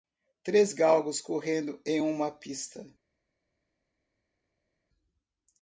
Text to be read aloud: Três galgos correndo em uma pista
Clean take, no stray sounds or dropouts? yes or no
yes